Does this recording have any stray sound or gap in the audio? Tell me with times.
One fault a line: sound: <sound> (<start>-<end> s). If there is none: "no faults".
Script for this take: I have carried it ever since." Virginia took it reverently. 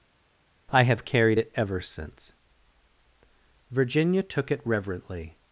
no faults